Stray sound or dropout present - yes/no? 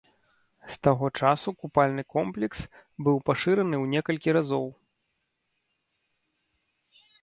no